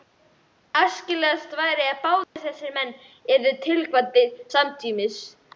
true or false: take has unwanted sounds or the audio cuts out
true